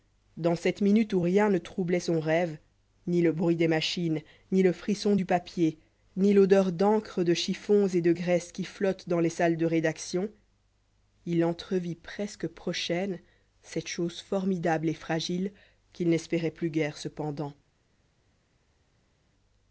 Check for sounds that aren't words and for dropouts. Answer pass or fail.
pass